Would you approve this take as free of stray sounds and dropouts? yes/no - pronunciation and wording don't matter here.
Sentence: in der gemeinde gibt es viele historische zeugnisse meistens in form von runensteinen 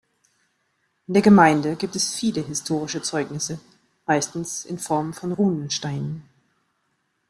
yes